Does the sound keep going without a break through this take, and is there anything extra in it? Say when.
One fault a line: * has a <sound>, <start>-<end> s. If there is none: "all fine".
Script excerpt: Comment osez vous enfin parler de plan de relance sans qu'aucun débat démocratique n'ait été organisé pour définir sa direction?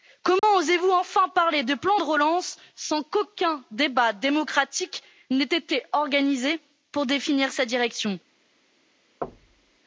* has a dropout, 0.4-0.4 s
* has a thud, 9.2-9.8 s